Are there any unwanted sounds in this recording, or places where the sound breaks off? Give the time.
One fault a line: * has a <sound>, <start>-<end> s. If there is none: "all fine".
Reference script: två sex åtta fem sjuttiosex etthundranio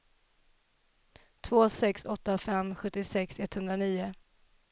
all fine